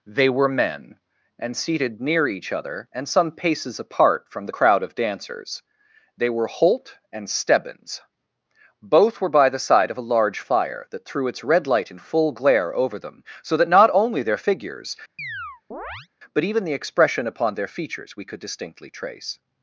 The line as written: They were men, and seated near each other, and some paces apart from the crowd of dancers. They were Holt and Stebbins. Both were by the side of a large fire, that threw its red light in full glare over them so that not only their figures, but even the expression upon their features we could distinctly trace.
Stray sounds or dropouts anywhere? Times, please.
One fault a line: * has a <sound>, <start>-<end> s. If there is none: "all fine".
* has a chirp, 15.2-16.1 s